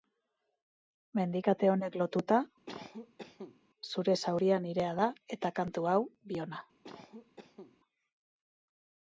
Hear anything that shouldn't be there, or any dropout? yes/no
yes